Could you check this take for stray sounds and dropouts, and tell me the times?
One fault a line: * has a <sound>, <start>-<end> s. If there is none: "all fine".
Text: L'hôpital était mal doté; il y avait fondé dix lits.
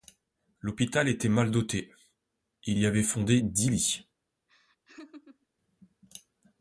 * has a laugh, 4.5-5.5 s